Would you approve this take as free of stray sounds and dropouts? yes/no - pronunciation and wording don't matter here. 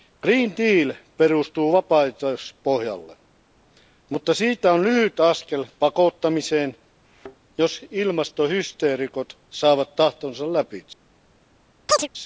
no